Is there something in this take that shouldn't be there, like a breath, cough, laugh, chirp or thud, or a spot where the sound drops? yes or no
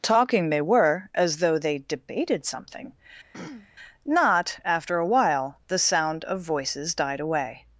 yes